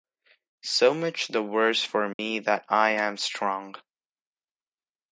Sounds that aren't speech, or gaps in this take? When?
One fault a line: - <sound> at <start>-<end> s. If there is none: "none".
- dropout at 2.1-2.2 s